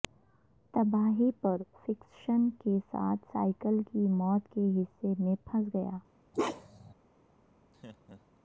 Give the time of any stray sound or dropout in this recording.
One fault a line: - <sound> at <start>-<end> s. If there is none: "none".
- bark at 6.3-6.9 s
- laugh at 7.7-8.4 s